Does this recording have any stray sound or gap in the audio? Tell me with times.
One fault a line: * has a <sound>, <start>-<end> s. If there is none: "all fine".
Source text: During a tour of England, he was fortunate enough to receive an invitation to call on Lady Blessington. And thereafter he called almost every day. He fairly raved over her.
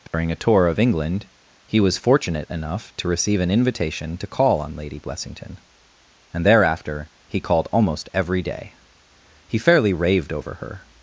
* has a dropout, 0.1-0.1 s